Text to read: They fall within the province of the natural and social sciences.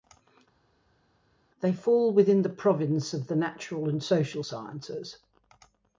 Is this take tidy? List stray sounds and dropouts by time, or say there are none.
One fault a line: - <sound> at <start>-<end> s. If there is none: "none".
none